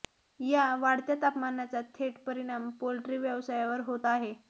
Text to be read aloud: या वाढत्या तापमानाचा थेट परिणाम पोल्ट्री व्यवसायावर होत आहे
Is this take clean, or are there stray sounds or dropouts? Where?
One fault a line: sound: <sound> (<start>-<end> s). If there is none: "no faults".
no faults